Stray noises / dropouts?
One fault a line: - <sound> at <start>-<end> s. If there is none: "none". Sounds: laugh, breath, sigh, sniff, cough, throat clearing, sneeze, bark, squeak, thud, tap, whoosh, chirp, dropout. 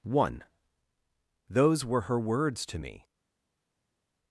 none